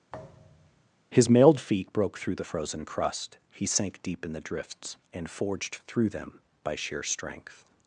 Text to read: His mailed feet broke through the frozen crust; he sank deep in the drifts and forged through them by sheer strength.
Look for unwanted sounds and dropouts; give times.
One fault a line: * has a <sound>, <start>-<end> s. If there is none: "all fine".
* has a thud, 0.1-0.9 s